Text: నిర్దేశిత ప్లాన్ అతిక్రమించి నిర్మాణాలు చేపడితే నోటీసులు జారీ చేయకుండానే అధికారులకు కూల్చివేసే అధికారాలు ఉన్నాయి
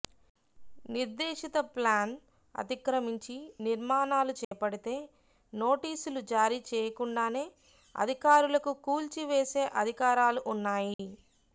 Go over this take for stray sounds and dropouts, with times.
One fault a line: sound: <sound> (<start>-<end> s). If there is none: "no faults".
sound: dropout (4.4-4.5 s)
sound: dropout (10.9-11.0 s)